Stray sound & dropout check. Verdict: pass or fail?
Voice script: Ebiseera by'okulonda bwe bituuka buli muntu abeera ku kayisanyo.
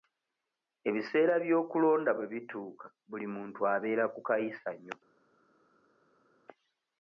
pass